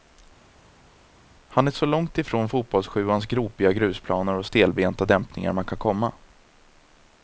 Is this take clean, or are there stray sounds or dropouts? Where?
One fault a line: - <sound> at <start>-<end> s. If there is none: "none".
none